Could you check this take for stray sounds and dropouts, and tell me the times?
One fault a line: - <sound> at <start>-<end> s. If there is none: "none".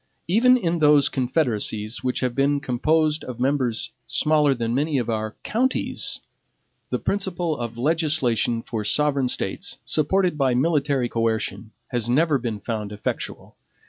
none